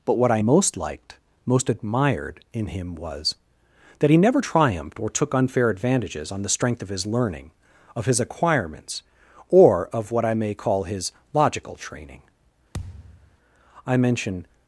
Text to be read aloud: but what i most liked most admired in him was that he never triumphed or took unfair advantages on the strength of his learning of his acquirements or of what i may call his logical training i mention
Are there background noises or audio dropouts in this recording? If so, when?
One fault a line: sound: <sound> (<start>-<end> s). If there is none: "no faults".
sound: thud (12.7-13.4 s)